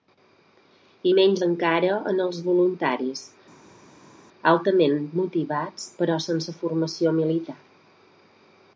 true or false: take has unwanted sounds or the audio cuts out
false